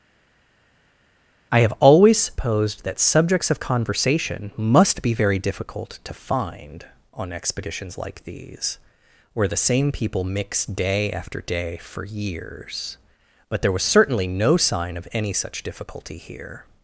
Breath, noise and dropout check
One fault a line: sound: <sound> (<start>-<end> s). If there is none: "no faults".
no faults